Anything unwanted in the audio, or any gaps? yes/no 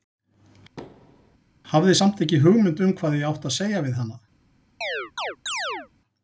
yes